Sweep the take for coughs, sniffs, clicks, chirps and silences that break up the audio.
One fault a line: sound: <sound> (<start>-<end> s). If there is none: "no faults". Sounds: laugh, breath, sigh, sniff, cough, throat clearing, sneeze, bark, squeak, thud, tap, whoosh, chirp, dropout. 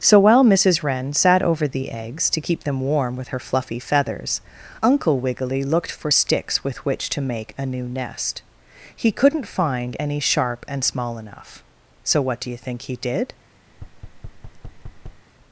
sound: thud (13.7-15.3 s)